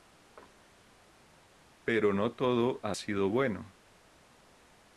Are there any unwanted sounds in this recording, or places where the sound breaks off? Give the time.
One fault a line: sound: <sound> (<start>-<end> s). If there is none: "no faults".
no faults